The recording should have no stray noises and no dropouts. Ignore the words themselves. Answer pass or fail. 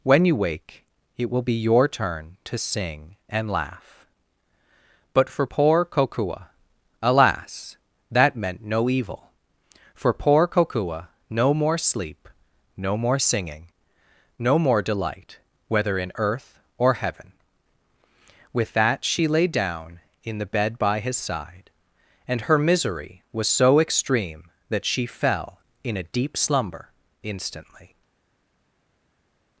pass